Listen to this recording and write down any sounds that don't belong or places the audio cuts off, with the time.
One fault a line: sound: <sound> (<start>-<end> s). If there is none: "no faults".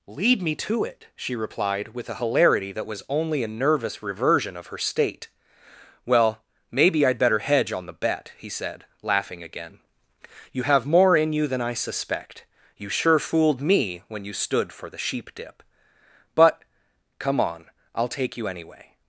no faults